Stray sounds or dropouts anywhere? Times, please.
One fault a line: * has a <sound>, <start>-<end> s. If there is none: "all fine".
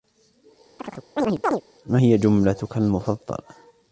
* has a chirp, 0.8-1.6 s